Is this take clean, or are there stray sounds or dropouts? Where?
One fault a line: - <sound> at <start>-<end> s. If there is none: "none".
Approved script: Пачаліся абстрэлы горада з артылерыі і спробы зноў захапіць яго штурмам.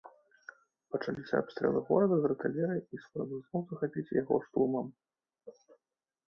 none